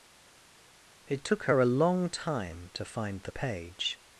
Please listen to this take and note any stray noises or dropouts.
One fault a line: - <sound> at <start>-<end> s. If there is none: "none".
none